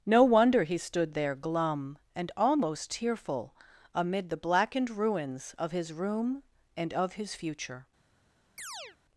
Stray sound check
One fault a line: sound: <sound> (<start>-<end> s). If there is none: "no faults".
sound: chirp (8.6-9.0 s)